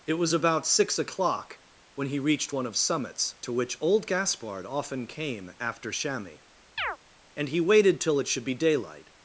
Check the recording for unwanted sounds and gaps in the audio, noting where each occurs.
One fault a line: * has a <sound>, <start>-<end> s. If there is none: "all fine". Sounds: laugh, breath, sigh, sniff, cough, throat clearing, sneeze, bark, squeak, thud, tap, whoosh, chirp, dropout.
* has a chirp, 6.8-7.0 s